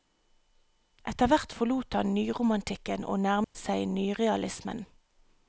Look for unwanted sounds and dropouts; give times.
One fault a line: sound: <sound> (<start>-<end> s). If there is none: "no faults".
sound: dropout (3.4-3.5 s)